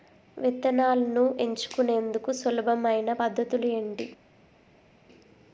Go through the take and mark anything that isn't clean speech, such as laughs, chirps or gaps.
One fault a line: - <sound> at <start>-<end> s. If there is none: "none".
none